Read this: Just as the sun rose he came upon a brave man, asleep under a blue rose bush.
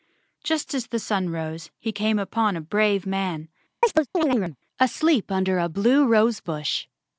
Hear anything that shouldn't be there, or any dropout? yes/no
yes